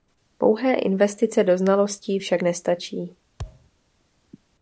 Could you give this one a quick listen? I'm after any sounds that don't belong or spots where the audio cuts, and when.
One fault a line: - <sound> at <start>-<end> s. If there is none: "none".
- thud at 3.4-3.7 s